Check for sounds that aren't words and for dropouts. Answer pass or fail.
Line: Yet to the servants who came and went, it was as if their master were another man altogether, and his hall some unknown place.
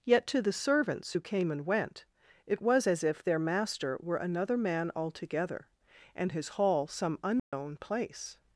fail